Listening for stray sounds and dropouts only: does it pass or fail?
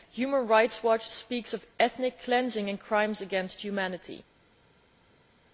pass